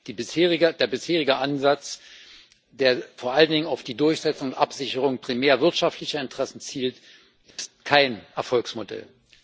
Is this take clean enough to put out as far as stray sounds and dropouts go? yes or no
no